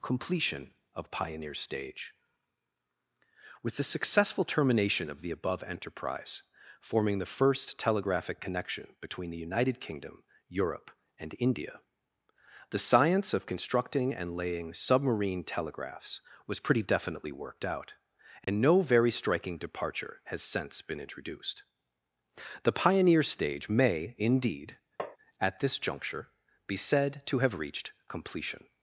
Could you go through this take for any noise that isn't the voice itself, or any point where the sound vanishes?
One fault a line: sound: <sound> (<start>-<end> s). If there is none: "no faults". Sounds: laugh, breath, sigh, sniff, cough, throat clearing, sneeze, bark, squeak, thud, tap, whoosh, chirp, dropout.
sound: dropout (18.4-18.5 s)
sound: tap (25.0-25.2 s)